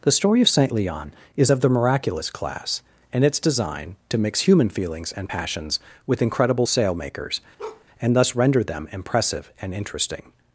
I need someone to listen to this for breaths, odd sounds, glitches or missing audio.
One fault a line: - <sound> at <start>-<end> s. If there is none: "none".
- bark at 7.6-7.9 s